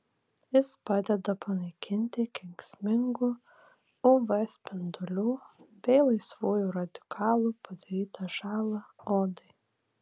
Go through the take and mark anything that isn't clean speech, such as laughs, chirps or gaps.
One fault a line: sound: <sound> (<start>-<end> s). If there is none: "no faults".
no faults